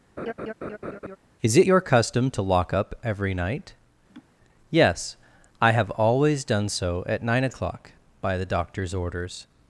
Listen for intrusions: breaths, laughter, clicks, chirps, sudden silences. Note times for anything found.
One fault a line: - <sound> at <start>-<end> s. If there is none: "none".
- laugh at 0.2-1.2 s
- laugh at 4.1-4.3 s